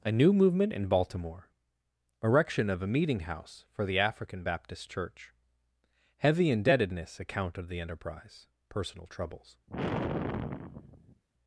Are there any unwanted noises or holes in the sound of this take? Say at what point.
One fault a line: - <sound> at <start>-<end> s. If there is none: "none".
- sigh at 9.7-11.2 s